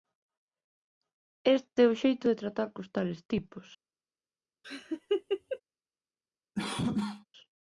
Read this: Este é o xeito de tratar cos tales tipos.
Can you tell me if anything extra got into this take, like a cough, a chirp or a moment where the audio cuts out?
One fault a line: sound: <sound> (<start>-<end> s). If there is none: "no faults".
sound: laugh (4.6-5.6 s)
sound: cough (6.6-7.3 s)